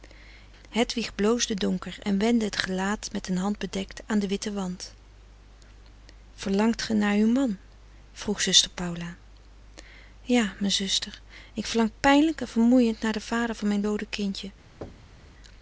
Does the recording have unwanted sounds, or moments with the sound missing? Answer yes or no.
yes